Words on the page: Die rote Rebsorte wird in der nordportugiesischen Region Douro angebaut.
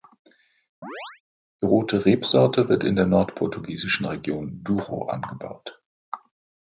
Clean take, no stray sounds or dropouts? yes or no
no